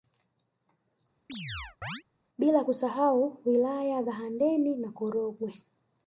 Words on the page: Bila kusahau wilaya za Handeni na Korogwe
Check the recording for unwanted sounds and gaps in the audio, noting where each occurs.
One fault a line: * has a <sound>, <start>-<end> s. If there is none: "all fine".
* has a chirp, 1.3-2.0 s